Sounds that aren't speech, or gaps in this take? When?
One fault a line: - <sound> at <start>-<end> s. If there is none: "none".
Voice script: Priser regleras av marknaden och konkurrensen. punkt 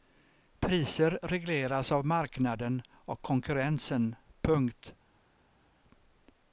none